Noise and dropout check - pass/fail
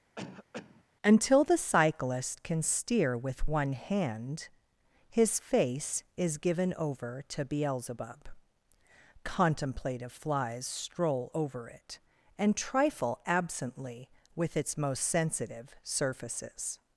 fail